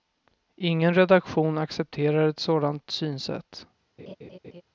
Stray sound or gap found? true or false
true